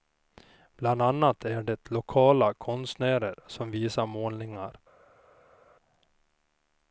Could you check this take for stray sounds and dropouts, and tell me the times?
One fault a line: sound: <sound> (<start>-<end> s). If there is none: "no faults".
no faults